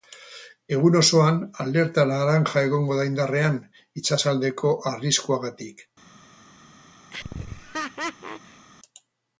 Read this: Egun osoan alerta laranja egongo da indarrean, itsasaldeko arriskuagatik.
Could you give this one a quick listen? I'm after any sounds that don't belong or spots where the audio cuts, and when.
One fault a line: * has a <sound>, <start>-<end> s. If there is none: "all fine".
* has a laugh, 7.1-8.7 s